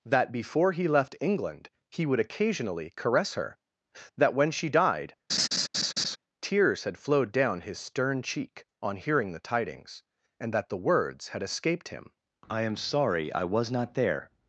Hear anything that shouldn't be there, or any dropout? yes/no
yes